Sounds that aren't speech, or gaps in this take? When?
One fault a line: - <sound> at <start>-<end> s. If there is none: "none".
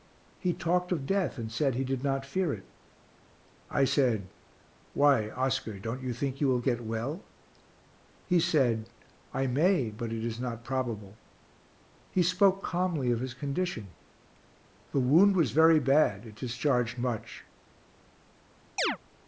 - chirp at 18.8-19.0 s